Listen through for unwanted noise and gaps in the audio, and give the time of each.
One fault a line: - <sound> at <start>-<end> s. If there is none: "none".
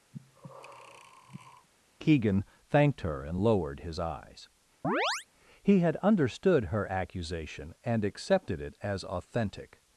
- breath at 0.1-1.7 s
- chirp at 4.8-5.3 s